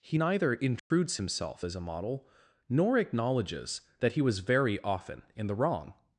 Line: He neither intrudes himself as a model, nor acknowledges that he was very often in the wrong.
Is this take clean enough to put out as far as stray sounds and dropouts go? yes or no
no